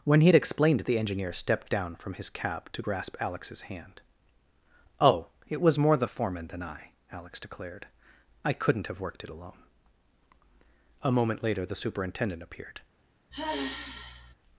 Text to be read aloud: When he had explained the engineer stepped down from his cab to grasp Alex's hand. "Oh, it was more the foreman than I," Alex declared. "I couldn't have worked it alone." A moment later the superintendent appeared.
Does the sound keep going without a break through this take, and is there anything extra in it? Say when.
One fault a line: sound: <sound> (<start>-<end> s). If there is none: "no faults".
sound: sigh (13.3-14.3 s)